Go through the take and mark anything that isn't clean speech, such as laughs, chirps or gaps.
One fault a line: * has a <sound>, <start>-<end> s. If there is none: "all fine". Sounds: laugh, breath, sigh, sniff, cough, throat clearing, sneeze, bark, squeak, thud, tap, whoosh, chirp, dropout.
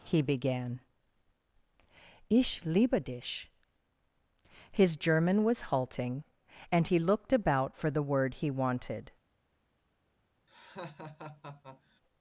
* has a laugh, 10.5-12.0 s